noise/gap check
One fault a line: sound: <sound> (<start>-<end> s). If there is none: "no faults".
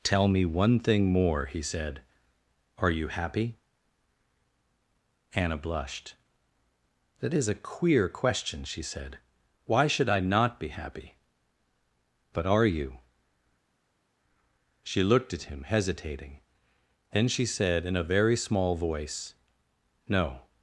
no faults